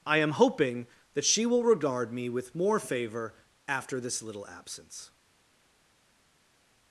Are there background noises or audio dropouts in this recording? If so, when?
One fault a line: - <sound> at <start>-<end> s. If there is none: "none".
none